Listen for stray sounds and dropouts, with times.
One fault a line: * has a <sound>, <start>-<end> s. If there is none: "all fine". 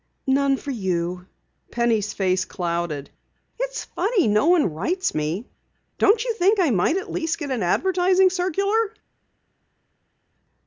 all fine